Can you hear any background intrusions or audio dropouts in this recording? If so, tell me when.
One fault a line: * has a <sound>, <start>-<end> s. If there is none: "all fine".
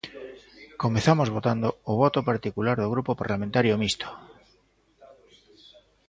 all fine